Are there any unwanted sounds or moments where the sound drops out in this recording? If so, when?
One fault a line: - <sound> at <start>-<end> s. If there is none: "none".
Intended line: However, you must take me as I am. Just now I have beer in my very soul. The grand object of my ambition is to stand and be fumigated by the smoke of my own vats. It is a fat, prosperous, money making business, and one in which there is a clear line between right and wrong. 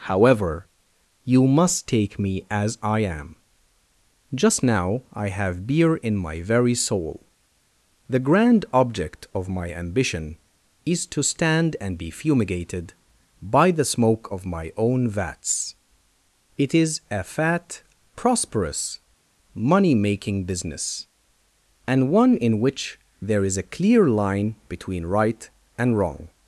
none